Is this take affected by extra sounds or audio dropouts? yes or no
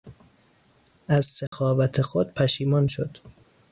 yes